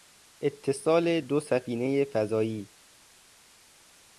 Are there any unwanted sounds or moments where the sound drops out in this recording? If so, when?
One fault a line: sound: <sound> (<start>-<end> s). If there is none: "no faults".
no faults